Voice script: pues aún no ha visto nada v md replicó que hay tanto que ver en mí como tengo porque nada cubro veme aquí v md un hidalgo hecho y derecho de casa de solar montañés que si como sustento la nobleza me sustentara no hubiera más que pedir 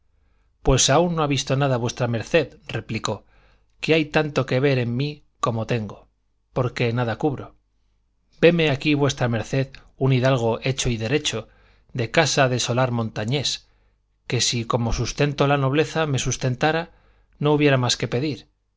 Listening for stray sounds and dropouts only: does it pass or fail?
pass